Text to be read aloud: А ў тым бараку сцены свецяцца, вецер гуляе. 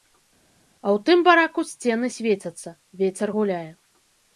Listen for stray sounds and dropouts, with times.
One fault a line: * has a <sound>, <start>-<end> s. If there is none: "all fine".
all fine